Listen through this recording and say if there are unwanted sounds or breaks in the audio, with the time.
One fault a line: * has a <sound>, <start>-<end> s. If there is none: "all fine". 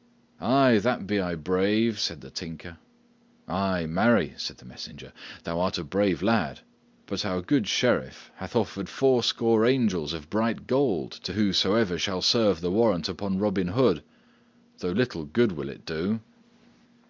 all fine